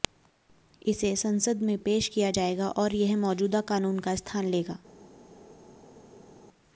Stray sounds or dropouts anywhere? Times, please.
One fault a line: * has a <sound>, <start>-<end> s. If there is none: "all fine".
all fine